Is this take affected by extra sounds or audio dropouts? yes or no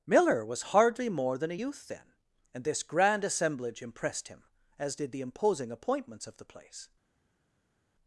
no